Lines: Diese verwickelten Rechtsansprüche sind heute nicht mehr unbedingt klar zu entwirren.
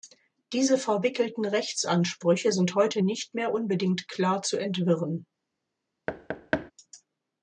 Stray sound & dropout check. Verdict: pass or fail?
fail